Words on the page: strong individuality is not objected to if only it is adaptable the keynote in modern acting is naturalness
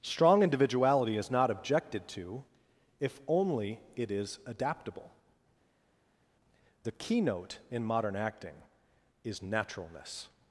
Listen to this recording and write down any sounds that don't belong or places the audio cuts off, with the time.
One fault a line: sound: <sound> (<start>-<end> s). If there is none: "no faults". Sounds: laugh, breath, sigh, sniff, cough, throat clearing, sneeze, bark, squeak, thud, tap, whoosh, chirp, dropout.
no faults